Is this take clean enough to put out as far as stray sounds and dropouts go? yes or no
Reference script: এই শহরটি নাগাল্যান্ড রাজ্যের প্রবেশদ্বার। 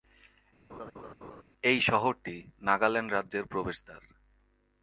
no